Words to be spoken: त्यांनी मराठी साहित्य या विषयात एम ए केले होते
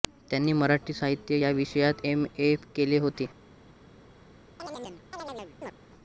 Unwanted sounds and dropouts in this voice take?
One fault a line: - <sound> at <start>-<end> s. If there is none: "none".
- chirp at 4.6-5.7 s